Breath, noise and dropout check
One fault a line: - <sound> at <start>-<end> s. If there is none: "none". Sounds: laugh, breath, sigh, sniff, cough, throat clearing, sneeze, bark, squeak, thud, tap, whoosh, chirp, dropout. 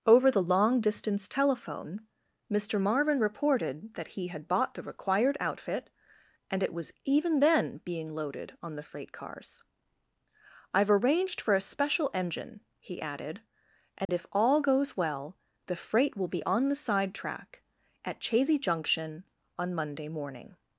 - dropout at 14.0-14.1 s